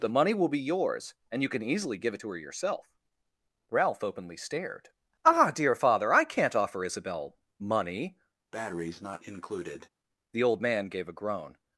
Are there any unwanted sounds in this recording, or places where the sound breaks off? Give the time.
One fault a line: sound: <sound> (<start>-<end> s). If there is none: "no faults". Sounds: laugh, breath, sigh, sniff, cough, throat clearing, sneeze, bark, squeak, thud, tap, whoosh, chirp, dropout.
sound: breath (8.5-9.9 s)